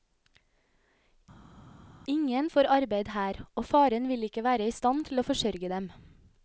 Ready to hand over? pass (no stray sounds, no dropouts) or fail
pass